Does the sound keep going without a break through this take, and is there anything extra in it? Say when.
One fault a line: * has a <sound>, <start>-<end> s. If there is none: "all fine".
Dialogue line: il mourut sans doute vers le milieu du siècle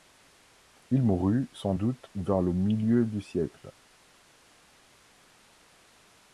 all fine